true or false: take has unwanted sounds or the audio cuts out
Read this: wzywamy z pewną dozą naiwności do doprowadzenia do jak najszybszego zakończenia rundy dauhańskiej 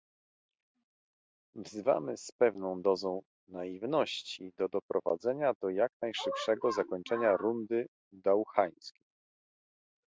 false